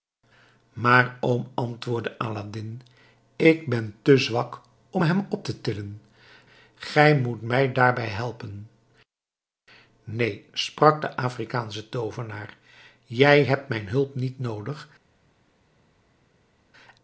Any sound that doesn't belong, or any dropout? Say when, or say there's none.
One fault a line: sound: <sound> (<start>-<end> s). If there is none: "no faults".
no faults